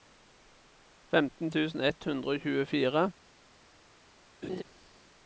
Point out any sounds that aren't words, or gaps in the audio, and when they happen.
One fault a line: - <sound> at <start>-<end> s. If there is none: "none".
- laugh at 4.4-4.6 s